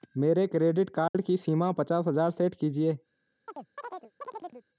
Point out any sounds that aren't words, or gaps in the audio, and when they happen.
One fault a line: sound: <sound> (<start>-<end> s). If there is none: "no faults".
sound: dropout (1.1-1.1 s)
sound: chirp (3.5-4.7 s)